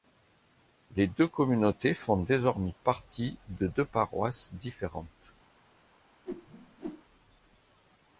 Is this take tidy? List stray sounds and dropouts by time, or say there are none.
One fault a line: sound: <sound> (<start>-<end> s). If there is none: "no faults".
sound: whoosh (6.3-7.0 s)